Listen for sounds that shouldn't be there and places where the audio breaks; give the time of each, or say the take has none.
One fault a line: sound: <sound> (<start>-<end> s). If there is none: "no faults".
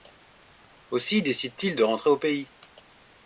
no faults